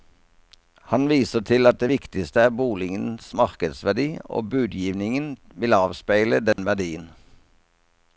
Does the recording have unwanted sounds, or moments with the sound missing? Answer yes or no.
yes